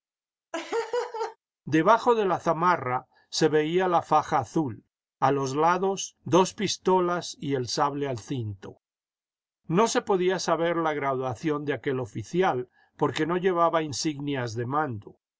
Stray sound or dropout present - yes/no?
yes